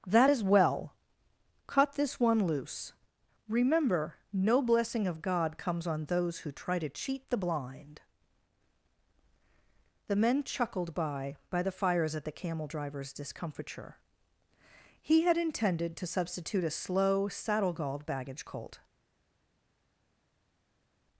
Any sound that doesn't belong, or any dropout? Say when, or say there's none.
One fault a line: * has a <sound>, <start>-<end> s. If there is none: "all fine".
all fine